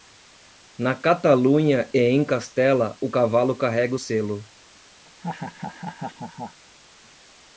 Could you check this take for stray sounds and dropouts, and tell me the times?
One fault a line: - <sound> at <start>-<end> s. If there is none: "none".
- laugh at 5.0-6.6 s